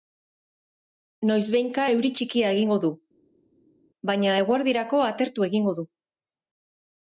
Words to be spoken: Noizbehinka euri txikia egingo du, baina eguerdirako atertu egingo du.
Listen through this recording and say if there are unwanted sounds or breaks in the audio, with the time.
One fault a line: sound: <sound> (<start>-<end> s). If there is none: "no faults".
no faults